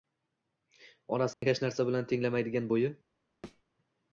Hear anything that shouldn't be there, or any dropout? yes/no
yes